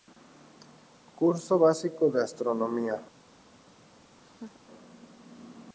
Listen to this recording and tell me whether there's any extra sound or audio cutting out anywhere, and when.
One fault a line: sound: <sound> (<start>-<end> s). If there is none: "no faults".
sound: laugh (4.2-4.6 s)